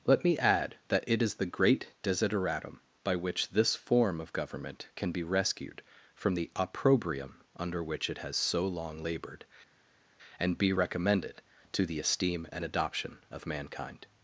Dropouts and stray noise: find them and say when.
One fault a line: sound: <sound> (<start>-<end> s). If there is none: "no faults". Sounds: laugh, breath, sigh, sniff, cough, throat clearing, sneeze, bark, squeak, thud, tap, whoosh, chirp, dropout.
no faults